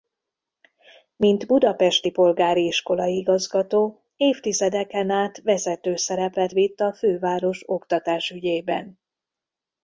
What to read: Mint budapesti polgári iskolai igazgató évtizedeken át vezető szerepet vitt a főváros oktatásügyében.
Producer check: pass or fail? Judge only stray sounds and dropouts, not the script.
pass